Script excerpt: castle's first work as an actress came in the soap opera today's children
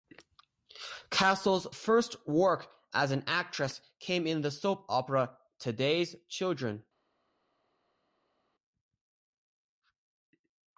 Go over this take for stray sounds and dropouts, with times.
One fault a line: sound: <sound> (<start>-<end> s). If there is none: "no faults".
no faults